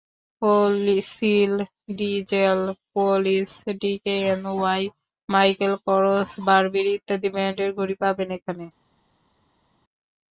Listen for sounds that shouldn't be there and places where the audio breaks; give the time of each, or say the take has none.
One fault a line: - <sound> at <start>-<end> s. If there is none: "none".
none